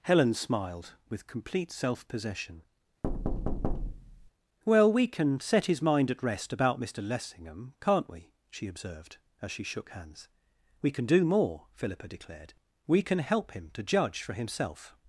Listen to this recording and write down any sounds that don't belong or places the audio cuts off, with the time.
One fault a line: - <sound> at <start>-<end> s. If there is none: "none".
- thud at 3.0-4.3 s